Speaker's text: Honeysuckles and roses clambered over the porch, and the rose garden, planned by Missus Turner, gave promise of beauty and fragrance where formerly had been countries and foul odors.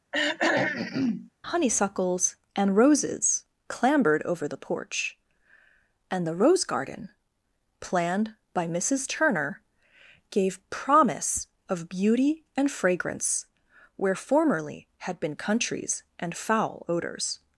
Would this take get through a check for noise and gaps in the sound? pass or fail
fail